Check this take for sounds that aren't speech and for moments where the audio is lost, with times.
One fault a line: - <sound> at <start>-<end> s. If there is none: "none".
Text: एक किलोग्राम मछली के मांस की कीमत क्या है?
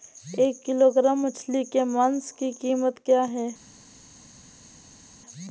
none